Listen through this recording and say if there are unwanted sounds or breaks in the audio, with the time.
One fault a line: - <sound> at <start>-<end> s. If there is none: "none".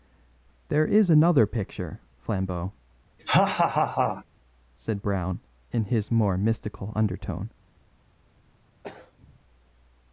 - laugh at 3.2-4.2 s
- throat clearing at 8.8-9.4 s